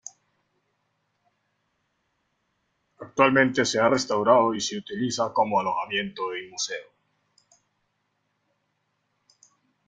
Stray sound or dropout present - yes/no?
no